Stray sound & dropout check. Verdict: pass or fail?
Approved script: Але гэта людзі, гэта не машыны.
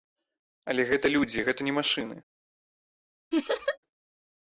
fail